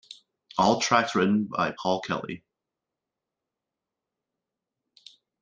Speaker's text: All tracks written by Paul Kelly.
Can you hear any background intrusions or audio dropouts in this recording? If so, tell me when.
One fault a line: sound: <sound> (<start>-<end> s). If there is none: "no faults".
no faults